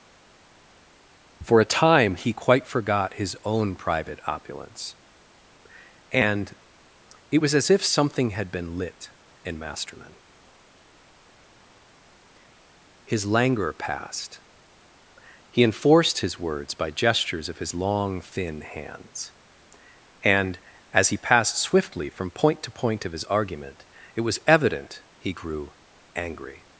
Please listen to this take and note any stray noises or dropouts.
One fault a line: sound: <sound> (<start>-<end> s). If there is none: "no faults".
no faults